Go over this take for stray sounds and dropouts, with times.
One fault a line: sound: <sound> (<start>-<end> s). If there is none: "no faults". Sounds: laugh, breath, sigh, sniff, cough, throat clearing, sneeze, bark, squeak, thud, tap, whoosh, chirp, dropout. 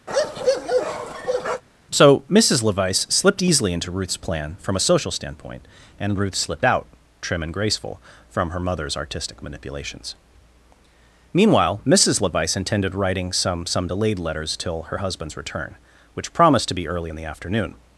sound: bark (0.1-1.6 s)